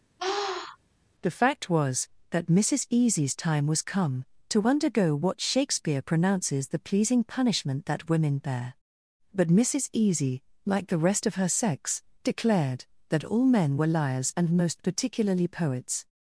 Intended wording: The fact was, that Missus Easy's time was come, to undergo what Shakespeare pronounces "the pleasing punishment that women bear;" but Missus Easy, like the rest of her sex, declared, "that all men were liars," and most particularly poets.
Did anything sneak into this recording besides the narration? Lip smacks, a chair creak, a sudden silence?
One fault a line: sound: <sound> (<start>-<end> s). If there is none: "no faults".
sound: sniff (0.2-0.8 s)